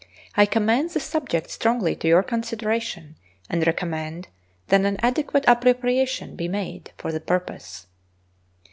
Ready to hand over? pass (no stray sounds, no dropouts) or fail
pass